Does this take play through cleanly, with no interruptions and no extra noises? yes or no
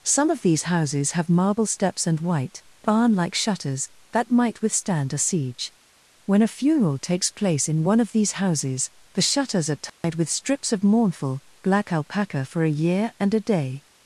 no